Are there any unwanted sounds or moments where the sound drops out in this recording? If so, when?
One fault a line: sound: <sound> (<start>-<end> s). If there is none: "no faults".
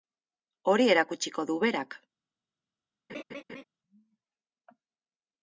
sound: laugh (3.1-3.6 s)